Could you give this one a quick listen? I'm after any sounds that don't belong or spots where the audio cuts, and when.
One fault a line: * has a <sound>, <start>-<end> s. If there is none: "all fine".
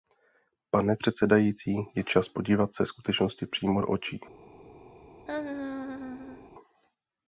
* has a laugh, 5.3-6.5 s